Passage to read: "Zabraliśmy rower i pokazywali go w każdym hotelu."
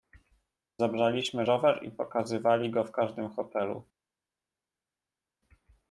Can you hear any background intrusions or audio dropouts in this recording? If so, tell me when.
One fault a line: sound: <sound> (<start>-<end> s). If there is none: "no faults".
no faults